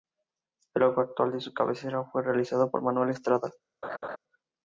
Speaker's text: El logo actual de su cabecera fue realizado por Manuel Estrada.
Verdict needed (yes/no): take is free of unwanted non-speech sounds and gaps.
no